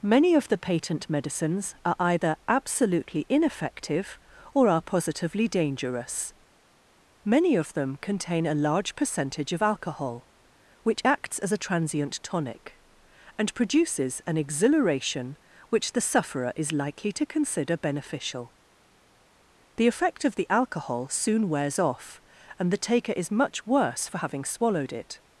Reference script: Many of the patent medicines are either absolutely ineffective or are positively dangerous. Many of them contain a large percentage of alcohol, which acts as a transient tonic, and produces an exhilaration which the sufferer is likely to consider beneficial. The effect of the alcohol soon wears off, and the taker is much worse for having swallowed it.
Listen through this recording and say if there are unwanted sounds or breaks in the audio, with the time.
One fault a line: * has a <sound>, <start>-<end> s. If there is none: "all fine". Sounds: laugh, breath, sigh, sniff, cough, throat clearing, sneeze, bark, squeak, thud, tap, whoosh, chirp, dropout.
all fine